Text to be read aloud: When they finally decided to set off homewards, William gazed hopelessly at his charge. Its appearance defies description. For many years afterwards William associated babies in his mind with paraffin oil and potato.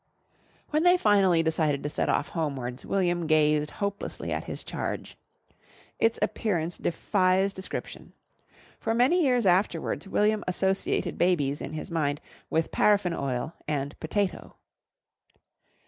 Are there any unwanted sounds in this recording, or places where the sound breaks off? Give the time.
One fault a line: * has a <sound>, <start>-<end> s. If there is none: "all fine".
all fine